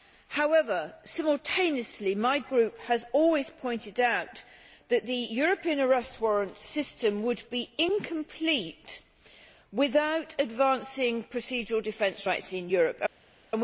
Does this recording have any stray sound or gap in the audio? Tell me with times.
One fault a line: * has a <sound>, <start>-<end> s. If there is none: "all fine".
all fine